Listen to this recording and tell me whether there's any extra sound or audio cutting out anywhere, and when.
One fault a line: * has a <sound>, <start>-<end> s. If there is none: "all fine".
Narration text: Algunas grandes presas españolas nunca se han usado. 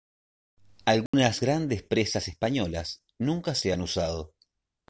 * has a dropout, 1.1-1.1 s